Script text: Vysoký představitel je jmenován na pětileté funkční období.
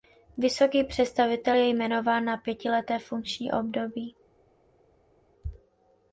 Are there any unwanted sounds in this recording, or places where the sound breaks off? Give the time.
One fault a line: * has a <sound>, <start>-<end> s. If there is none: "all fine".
all fine